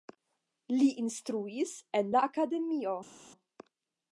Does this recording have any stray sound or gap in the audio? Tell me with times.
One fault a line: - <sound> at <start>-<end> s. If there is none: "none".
none